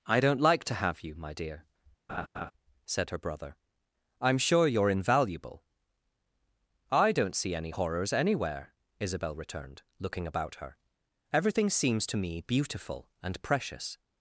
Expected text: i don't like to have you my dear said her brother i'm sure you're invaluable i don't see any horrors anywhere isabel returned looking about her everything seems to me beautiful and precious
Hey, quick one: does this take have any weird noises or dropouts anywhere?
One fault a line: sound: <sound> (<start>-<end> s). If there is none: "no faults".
sound: laugh (2.1-2.5 s)